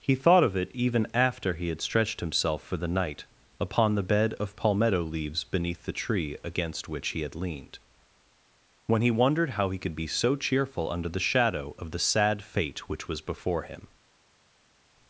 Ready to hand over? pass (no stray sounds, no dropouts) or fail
pass